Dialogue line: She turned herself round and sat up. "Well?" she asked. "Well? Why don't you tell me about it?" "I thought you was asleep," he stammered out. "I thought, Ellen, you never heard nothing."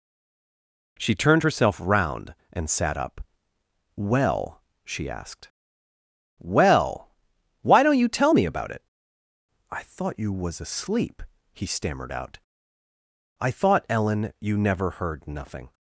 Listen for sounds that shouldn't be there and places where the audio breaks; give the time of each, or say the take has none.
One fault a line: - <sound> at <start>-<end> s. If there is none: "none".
none